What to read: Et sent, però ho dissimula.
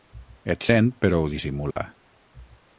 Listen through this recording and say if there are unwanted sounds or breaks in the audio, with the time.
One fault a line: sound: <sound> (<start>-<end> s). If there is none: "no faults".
sound: dropout (1.7-1.8 s)